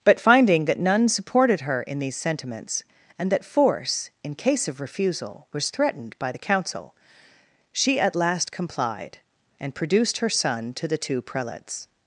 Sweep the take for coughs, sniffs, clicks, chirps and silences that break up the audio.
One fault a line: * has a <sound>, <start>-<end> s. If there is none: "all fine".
all fine